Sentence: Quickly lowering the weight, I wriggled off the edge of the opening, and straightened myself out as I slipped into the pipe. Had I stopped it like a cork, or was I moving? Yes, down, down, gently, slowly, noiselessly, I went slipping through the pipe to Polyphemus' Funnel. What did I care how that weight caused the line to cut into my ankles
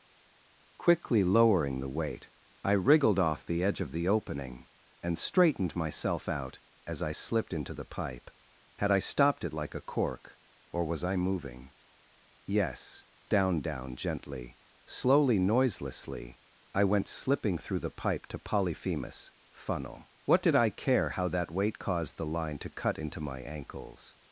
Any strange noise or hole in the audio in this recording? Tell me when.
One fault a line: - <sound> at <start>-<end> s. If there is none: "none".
none